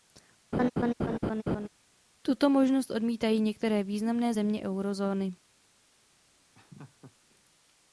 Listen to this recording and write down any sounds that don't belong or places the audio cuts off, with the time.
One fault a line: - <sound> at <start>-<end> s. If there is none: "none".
- laugh at 0.5-1.7 s
- laugh at 6.5-7.2 s